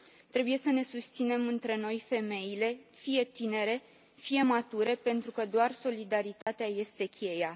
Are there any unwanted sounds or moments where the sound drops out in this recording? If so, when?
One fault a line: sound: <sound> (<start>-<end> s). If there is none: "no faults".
sound: dropout (6.4-6.5 s)